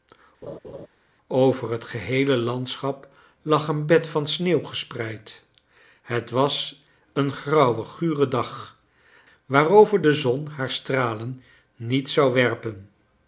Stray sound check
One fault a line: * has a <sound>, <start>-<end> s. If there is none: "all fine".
* has a laugh, 0.4-0.9 s